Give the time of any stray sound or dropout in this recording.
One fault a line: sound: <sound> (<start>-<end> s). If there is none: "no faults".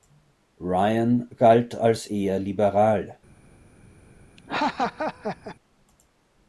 sound: laugh (4.4-5.6 s)